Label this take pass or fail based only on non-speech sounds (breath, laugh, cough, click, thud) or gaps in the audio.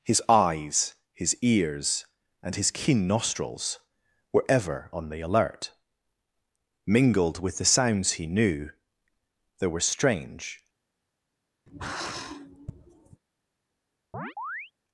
fail